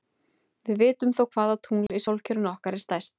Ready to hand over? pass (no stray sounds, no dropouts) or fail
fail